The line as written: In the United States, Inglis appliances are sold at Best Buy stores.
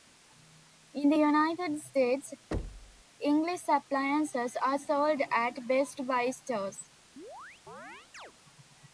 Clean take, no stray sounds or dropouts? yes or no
no